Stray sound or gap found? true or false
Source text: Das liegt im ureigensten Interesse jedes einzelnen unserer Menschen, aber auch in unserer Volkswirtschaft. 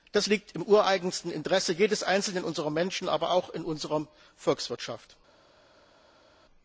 false